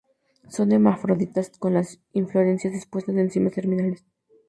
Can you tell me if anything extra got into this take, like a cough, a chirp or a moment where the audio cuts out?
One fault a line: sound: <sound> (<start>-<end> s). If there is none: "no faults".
no faults